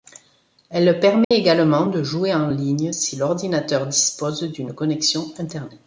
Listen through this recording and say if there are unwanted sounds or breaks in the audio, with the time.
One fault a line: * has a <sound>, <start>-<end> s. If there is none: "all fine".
* has a dropout, 1.2-1.3 s